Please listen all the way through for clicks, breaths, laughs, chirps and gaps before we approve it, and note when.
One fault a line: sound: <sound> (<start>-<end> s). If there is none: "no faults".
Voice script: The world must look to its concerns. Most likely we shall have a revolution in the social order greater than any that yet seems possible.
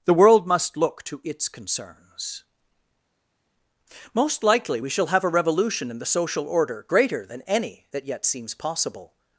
no faults